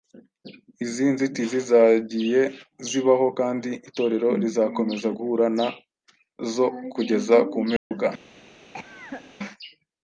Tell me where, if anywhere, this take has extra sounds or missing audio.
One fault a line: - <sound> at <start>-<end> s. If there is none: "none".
- dropout at 7.8-7.9 s
- cough at 8.7-9.4 s